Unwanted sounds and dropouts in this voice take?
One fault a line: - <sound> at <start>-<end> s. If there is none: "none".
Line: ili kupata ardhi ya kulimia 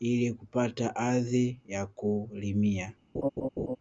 - laugh at 3.1-3.8 s